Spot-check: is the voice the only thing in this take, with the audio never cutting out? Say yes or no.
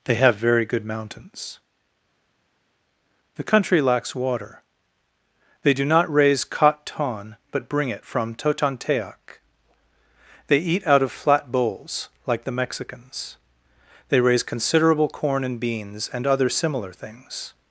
yes